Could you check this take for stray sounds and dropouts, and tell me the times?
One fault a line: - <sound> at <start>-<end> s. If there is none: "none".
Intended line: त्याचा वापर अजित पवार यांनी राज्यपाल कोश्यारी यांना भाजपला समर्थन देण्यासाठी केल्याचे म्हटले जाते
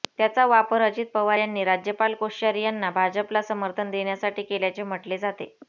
none